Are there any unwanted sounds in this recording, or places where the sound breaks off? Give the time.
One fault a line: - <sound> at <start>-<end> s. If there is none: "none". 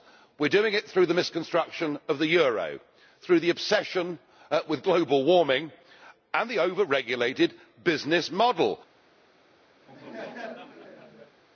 - laugh at 9.8-11.4 s